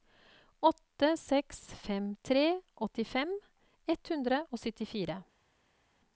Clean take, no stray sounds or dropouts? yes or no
yes